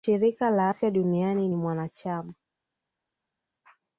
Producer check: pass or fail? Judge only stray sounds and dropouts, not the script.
pass